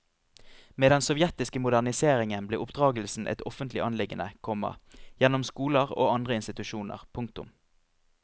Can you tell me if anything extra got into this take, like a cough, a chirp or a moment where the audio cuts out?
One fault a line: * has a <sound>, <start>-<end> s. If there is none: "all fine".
all fine